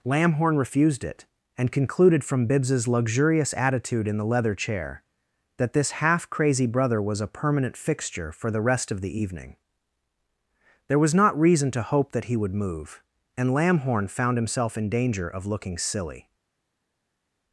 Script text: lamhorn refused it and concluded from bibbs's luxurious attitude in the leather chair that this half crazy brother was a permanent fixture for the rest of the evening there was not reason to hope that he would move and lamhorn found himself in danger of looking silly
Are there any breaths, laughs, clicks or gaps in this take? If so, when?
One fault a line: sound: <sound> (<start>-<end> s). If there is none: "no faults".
no faults